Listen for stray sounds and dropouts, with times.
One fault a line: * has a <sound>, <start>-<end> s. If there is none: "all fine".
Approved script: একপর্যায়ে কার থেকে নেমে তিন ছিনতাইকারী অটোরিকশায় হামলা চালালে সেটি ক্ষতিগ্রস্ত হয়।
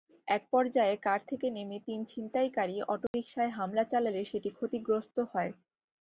* has a dropout, 3.1-3.1 s